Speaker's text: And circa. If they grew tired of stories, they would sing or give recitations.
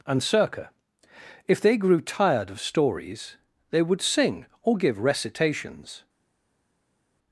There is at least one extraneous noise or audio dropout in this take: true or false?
false